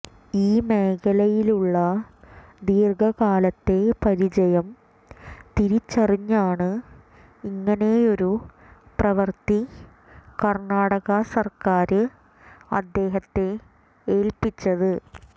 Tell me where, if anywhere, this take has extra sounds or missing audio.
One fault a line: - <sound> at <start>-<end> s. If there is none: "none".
none